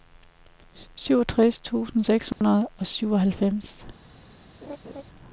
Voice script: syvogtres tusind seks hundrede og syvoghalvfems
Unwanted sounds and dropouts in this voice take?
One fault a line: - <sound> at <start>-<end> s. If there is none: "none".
- dropout at 2.3-2.4 s
- laugh at 4.6-5.0 s